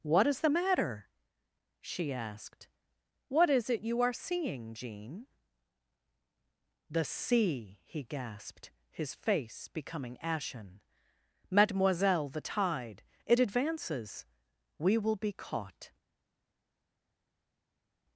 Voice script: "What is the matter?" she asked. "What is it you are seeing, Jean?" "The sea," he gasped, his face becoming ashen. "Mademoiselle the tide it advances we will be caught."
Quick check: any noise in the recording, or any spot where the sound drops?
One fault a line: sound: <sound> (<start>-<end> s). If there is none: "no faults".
no faults